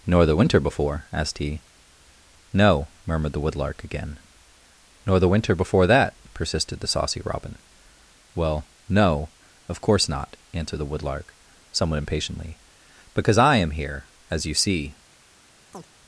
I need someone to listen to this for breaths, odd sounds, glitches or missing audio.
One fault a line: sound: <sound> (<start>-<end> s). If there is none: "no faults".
sound: chirp (15.7-15.9 s)